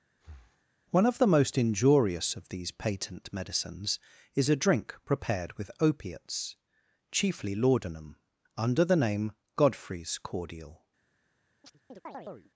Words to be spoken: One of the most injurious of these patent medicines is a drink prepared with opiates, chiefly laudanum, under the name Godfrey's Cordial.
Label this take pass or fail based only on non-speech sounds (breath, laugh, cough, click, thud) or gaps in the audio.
fail